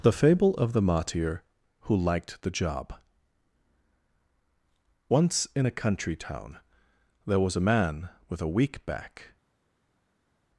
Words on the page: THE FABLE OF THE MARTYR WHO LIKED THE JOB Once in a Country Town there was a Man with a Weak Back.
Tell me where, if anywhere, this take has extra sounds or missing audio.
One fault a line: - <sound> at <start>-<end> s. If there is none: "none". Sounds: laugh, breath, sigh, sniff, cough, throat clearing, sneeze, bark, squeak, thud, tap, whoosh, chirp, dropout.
none